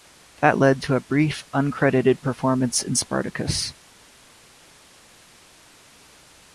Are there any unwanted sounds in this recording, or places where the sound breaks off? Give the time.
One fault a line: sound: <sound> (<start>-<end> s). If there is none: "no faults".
no faults